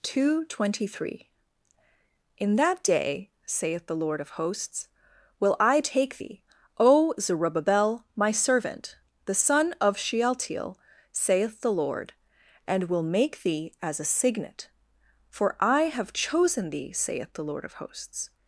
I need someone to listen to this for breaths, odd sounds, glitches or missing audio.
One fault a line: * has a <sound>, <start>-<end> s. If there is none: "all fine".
all fine